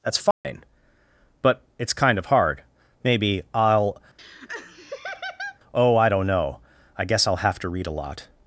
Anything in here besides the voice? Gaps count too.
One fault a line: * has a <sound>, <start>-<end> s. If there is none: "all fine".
* has a dropout, 0.3-0.4 s
* has a laugh, 4.2-5.6 s